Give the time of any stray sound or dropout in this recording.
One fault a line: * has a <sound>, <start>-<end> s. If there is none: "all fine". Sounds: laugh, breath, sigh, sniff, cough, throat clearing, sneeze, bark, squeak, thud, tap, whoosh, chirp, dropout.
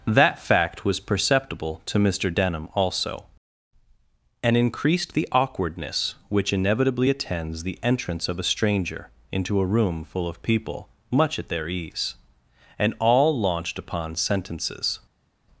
all fine